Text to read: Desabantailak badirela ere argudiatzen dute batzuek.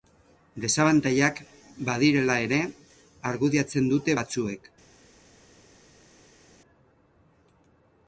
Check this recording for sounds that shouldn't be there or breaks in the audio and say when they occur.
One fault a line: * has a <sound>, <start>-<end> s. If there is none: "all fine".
all fine